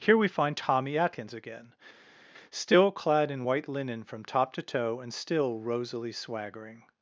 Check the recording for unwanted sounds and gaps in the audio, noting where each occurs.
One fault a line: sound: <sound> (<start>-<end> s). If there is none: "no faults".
no faults